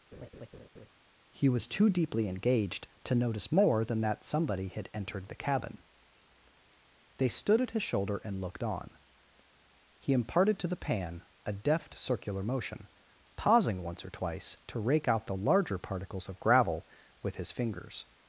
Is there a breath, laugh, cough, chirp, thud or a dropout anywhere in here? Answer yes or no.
yes